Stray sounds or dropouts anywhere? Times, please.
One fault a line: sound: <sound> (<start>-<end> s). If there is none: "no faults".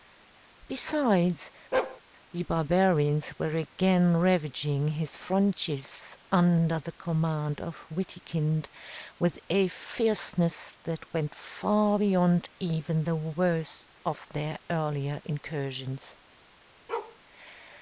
sound: bark (1.7-2.0 s)
sound: bark (16.9-17.2 s)